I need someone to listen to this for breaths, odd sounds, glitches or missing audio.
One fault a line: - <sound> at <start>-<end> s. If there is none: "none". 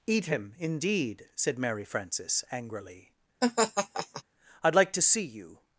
- laugh at 3.4-4.2 s